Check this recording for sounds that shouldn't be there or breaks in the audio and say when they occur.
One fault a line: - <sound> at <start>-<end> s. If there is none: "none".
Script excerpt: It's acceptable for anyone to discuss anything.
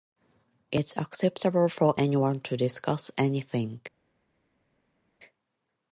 none